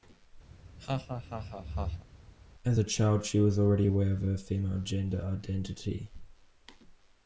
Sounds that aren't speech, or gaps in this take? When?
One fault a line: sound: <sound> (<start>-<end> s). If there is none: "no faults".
sound: laugh (0.5-2.1 s)